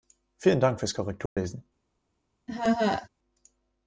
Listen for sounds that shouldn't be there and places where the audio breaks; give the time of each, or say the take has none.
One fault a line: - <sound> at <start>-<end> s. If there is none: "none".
- dropout at 1.3-1.4 s
- laugh at 2.5-3.1 s